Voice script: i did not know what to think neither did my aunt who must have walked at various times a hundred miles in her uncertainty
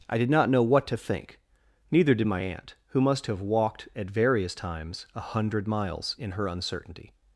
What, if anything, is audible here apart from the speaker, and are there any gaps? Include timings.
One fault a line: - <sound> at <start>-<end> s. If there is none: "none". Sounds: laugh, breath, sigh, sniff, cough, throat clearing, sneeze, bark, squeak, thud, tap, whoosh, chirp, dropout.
none